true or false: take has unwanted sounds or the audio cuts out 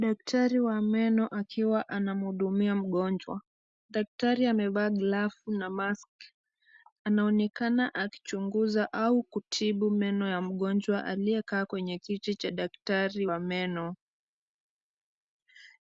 false